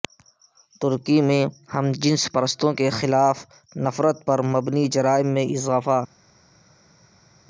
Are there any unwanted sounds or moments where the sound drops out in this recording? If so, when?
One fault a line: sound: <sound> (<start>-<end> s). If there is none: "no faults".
no faults